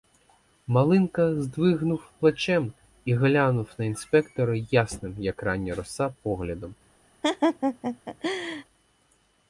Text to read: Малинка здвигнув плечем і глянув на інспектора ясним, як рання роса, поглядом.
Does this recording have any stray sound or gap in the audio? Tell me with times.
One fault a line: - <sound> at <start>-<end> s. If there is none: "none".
- laugh at 7.2-8.6 s